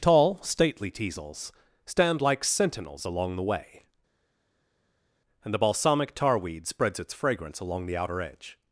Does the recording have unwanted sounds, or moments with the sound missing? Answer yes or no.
no